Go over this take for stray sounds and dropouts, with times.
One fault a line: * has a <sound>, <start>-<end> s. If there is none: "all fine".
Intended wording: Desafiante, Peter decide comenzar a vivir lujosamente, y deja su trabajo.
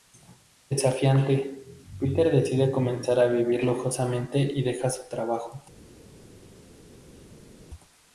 all fine